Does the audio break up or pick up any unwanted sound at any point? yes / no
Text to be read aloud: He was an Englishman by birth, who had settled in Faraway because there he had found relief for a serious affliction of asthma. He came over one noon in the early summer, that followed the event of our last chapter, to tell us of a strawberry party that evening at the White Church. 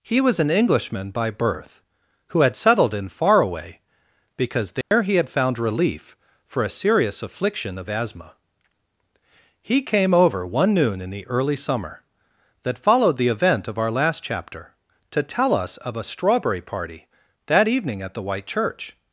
yes